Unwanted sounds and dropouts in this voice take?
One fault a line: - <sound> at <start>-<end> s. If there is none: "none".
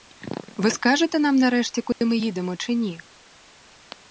- dropout at 1.9-2.0 s